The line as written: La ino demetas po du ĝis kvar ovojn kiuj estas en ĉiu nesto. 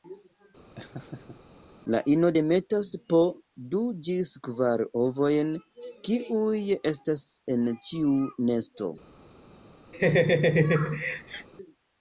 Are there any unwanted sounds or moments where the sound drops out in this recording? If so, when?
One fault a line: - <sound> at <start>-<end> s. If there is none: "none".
- laugh at 0.8-1.6 s
- laugh at 9.9-11.5 s